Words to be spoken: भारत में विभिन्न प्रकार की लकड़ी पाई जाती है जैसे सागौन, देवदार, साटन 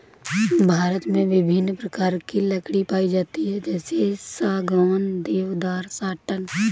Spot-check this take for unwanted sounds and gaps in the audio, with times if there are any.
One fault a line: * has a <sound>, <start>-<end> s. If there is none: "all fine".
all fine